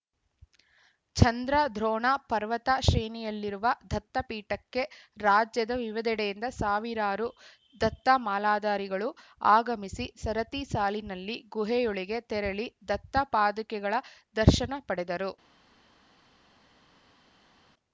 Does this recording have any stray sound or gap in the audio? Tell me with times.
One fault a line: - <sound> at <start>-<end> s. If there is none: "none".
none